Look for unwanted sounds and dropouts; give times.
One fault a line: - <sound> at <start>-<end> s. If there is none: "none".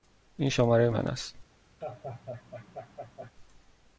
- laugh at 1.8-3.3 s